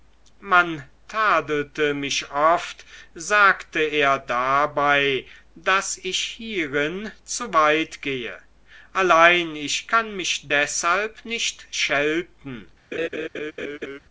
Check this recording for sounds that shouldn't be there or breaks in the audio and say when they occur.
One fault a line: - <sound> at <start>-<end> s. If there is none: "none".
- laugh at 12.9-14.0 s